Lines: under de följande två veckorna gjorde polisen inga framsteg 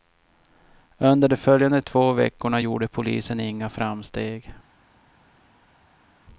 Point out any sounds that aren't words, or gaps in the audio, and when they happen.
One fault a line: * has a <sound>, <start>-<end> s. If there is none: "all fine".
all fine